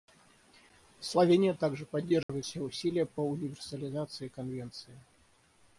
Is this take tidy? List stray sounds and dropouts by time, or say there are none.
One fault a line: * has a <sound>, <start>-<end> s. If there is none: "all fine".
* has a dropout, 2.2-2.3 s